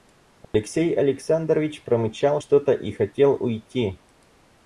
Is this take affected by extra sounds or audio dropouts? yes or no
yes